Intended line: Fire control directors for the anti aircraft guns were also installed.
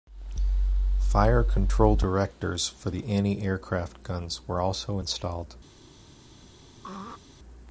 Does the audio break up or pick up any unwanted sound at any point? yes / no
yes